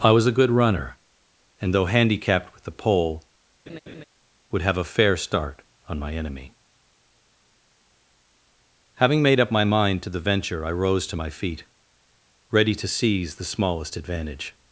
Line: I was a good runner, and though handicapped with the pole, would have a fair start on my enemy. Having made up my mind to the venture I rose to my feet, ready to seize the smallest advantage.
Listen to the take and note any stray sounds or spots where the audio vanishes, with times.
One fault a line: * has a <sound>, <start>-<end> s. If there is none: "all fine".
* has a laugh, 3.7-4.0 s